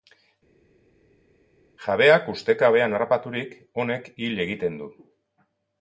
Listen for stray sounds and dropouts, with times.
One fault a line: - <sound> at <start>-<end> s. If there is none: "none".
none